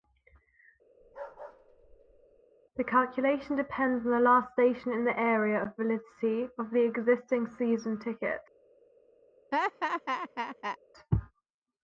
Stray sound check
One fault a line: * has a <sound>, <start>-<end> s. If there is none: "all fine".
* has a bark, 1.0-2.4 s
* has a laugh, 9.5-10.8 s